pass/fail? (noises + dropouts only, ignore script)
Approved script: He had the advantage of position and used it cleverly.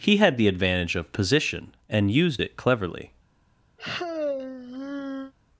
fail